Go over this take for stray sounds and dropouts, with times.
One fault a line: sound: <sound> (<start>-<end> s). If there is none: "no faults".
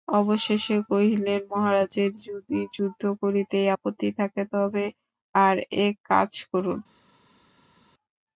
no faults